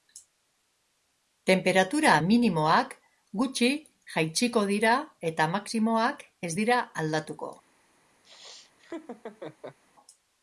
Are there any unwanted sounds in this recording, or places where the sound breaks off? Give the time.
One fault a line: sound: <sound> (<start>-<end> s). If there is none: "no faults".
sound: laugh (8.2-9.8 s)